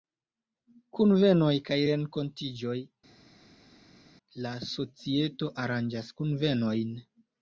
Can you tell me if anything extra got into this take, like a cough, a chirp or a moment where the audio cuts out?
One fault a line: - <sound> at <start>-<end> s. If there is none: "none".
none